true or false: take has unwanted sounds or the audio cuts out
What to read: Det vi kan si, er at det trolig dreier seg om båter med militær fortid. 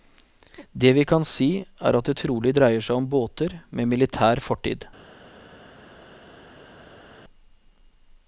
false